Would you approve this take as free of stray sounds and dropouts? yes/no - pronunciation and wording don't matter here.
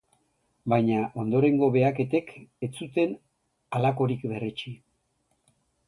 yes